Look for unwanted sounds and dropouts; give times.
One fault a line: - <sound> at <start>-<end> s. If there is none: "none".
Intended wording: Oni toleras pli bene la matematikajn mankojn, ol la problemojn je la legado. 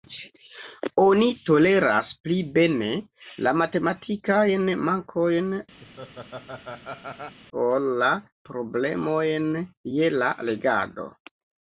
- laugh at 5.8-7.4 s